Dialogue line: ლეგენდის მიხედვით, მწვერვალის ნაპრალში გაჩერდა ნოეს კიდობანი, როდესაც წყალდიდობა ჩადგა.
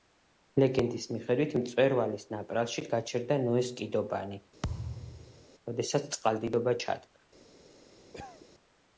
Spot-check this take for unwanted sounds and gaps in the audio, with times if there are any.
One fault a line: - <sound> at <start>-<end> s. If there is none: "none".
- thud at 4.6-5.4 s
- cough at 8.1-8.5 s